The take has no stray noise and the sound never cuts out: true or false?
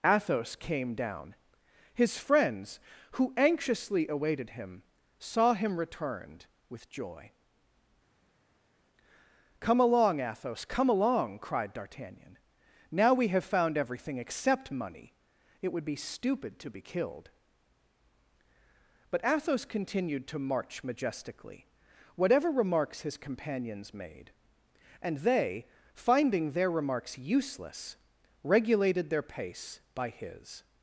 true